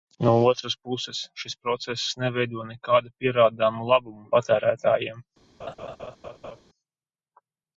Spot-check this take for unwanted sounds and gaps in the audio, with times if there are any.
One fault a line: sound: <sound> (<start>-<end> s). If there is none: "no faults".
sound: laugh (5.6-6.6 s)